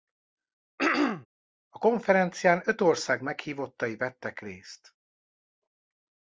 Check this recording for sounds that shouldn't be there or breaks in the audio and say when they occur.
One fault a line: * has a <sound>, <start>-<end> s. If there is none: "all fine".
* has a throat clearing, 0.8-1.3 s